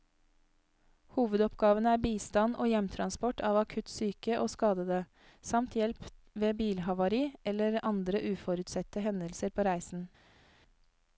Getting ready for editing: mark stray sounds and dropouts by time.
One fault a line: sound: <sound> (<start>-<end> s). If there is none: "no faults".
no faults